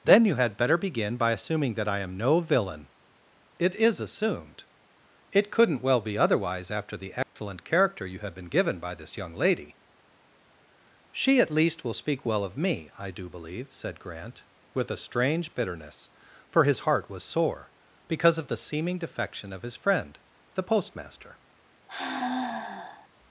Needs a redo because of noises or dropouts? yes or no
yes